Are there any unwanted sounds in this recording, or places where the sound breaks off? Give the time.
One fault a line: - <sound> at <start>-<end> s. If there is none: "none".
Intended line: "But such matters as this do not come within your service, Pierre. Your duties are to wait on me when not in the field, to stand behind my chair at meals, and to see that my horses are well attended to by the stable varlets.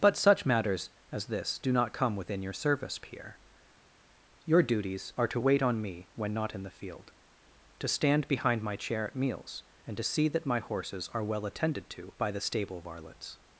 none